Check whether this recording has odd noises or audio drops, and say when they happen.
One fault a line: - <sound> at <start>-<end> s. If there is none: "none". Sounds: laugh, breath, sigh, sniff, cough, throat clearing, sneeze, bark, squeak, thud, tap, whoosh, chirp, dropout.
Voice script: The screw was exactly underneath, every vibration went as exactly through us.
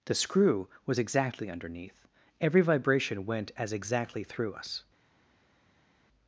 none